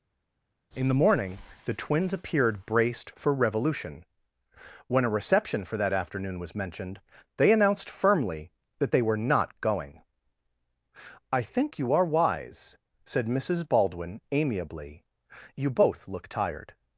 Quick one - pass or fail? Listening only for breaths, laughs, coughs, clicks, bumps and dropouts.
pass